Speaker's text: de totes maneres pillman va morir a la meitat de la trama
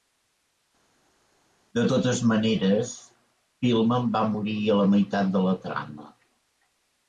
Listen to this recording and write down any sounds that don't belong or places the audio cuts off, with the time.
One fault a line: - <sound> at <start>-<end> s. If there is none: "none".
none